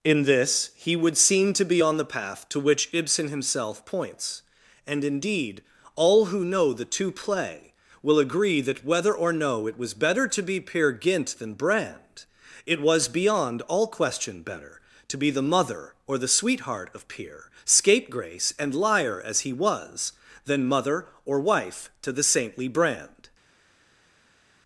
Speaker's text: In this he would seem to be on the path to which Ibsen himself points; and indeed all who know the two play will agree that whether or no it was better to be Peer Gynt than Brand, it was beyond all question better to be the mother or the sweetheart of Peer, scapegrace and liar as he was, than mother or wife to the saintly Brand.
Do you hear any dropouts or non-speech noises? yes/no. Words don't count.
no